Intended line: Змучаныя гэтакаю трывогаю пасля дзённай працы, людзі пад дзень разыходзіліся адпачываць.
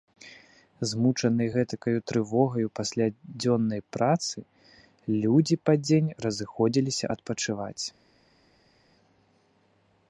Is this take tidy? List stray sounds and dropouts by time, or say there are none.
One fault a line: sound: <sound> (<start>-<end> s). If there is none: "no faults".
no faults